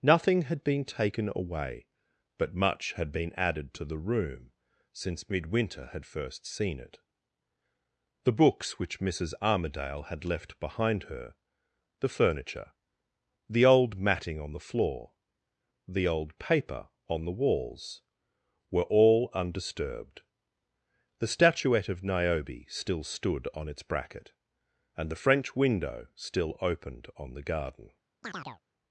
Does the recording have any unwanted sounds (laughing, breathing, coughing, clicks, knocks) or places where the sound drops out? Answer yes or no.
yes